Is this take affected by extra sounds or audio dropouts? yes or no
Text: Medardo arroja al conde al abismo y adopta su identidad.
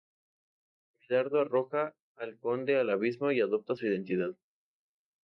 no